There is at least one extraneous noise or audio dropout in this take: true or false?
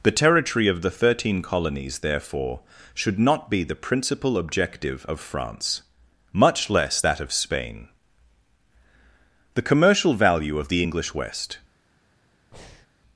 true